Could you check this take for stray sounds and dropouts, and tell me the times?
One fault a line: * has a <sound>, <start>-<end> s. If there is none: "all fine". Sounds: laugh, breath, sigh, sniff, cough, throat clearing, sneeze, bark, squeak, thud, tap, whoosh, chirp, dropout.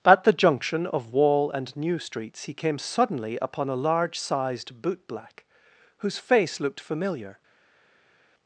all fine